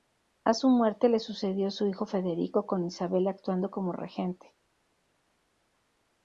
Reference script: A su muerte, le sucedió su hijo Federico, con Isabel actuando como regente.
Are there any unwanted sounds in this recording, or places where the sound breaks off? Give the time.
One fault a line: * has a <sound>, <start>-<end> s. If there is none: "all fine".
all fine